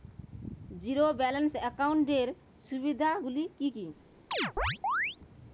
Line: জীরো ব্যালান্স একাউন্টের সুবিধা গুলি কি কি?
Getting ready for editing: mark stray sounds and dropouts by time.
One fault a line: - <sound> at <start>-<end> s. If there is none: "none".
- chirp at 4.3-5.2 s